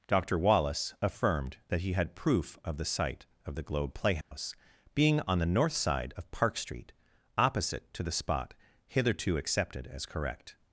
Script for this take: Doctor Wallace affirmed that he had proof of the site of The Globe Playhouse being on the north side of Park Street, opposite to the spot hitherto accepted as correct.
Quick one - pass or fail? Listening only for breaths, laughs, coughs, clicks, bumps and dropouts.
fail